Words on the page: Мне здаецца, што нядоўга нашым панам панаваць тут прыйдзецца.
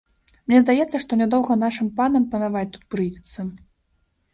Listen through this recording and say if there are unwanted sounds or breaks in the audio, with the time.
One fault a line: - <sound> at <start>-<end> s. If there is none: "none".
none